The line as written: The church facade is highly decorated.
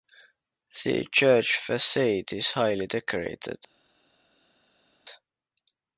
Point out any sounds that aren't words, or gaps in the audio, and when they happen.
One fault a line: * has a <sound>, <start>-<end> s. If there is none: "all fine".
all fine